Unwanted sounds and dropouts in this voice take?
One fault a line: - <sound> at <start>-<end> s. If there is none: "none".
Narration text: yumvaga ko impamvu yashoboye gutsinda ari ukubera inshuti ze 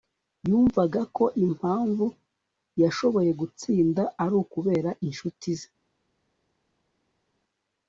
none